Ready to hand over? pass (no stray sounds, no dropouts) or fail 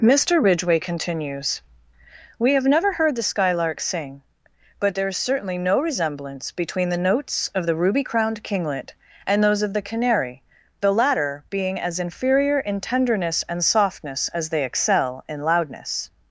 pass